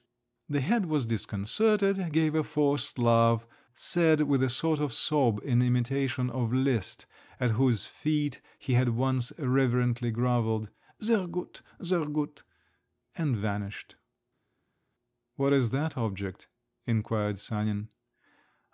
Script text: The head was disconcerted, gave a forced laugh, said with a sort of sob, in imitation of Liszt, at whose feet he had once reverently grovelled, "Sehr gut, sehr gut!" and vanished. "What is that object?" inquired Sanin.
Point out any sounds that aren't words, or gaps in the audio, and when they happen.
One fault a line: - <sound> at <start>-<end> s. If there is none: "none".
none